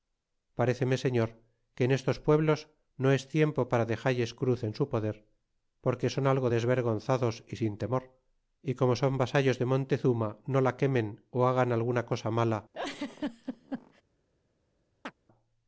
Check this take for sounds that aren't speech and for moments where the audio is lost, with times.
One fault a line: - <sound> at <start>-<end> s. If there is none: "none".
- laugh at 12.7-14.0 s
- chirp at 15.0-15.1 s